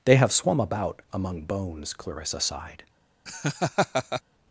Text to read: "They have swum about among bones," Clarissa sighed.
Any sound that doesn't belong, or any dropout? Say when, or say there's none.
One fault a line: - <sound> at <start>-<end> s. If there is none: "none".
- laugh at 3.3-4.2 s